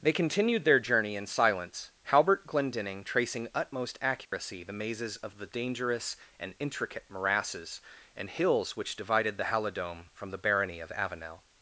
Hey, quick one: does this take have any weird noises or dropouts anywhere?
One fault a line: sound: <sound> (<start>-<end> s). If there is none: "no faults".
sound: dropout (4.3-4.3 s)